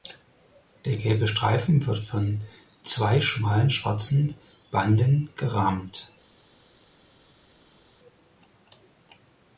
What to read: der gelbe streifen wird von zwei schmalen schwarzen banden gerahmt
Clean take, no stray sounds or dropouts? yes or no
yes